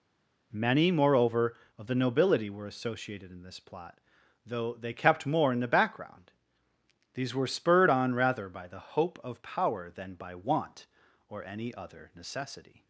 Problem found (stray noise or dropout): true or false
false